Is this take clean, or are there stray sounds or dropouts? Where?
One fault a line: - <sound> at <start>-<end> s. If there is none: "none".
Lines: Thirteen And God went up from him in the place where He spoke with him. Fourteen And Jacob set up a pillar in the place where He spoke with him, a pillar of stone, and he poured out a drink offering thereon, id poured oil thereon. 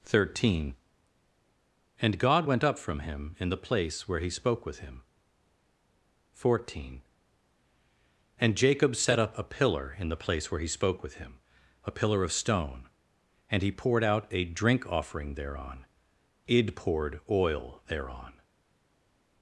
none